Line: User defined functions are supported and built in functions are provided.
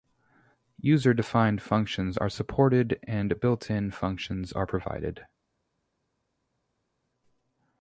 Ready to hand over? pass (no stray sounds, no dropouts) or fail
pass